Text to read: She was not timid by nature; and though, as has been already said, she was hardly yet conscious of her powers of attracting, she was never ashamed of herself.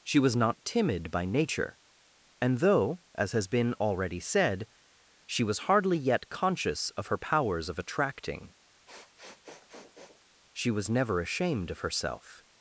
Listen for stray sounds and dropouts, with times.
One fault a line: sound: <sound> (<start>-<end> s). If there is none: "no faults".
sound: sniff (8.9-10.2 s)